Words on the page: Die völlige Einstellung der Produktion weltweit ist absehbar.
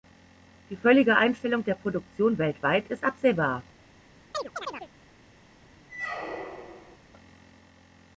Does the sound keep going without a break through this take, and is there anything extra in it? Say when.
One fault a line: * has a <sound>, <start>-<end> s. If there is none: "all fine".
* has a chirp, 4.3-4.9 s
* has a squeak, 5.9-7.0 s